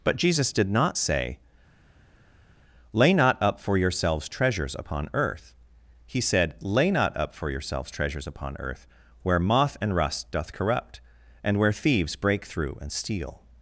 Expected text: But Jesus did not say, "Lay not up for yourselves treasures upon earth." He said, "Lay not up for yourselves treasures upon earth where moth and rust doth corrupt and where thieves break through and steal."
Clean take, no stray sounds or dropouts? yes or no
yes